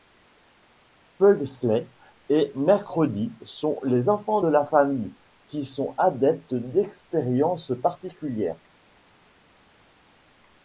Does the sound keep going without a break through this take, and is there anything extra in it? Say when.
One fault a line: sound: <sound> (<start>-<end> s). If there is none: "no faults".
no faults